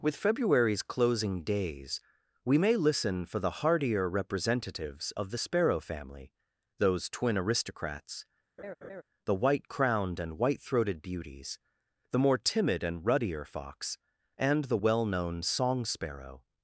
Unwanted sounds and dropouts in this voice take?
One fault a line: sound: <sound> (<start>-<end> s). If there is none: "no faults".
sound: laugh (8.6-9.0 s)